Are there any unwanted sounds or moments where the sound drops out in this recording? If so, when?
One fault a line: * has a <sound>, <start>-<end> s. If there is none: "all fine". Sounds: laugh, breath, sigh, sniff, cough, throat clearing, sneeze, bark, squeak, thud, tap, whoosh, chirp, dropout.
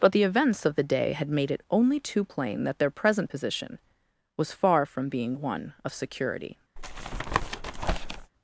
* has a tap, 6.8-8.3 s